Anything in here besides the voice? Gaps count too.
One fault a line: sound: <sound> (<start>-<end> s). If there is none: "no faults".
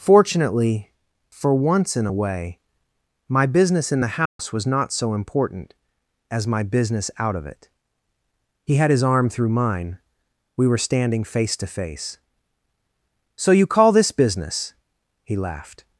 sound: dropout (4.3-4.4 s)